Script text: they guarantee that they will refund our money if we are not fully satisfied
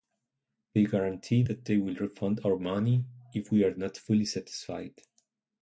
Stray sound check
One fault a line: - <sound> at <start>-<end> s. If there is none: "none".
none